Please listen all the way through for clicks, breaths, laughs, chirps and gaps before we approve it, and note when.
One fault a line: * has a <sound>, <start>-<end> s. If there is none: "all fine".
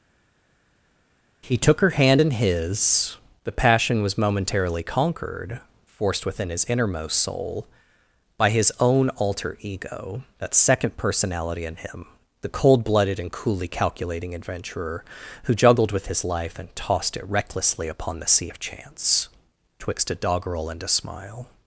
all fine